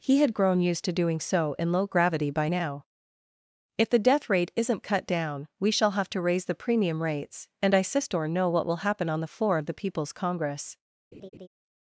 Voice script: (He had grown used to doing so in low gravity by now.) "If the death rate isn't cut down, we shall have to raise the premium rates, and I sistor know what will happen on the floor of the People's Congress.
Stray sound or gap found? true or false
true